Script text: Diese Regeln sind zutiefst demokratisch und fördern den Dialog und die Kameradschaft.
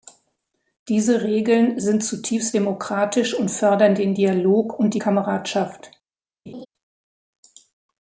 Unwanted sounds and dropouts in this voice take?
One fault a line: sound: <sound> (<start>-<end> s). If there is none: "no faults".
sound: laugh (6.5-6.7 s)